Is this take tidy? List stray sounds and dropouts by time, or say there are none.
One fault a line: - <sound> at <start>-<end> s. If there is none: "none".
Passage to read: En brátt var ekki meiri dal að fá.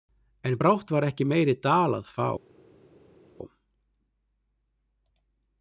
none